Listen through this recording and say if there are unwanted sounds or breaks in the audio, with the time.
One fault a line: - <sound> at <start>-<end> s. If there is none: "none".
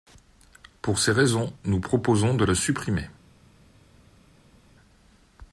none